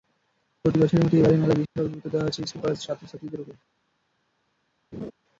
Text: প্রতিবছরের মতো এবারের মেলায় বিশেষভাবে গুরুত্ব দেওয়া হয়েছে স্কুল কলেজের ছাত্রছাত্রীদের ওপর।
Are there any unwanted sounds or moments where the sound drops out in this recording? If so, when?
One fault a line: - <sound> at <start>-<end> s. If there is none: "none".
- dropout at 1.7-1.8 s
- laugh at 4.9-5.1 s